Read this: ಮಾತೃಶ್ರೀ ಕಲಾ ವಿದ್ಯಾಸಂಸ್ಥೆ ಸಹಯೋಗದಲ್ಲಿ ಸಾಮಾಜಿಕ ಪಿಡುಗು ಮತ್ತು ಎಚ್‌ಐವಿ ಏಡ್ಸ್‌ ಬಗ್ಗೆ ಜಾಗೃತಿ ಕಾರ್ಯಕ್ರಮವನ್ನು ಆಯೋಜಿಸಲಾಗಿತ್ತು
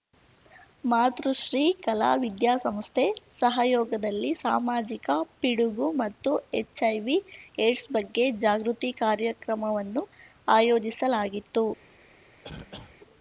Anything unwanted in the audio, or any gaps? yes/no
yes